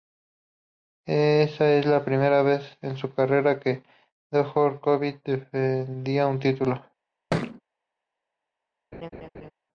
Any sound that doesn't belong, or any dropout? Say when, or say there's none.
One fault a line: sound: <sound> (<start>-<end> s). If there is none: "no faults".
sound: thud (7.3-7.6 s)
sound: laugh (8.9-9.5 s)